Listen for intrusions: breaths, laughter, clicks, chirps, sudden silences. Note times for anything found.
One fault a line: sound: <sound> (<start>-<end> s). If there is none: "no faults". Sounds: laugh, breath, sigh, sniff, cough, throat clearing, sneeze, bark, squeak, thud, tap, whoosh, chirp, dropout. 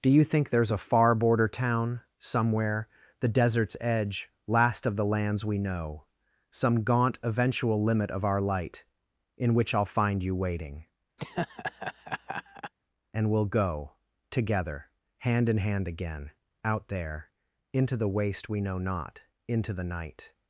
sound: laugh (11.2-12.7 s)